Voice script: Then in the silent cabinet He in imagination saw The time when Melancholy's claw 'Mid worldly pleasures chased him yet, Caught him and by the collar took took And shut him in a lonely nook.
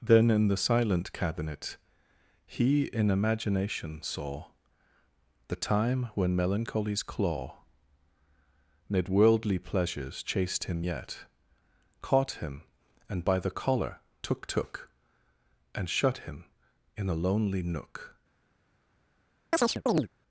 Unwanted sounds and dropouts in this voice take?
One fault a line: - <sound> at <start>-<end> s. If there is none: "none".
- chirp at 19.5-20.1 s